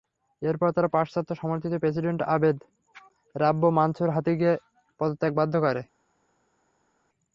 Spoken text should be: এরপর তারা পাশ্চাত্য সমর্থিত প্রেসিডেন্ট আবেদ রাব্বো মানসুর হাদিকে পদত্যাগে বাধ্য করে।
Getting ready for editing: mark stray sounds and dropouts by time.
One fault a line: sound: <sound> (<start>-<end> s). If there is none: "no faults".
no faults